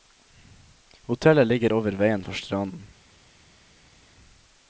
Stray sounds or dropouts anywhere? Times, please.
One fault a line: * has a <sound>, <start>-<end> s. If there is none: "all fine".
all fine